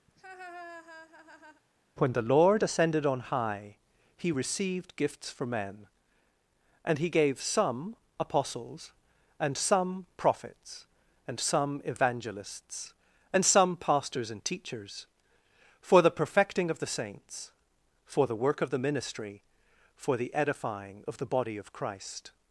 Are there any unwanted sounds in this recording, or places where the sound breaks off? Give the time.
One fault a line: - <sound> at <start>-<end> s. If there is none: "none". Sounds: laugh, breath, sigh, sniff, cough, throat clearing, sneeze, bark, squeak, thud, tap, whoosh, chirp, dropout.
- laugh at 0.1-1.6 s